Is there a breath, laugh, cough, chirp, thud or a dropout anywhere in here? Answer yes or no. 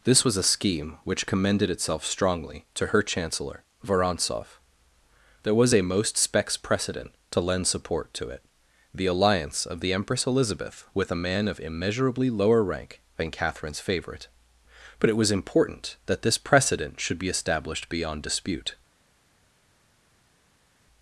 no